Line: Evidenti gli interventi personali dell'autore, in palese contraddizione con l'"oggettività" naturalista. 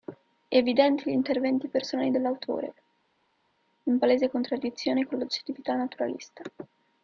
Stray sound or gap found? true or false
false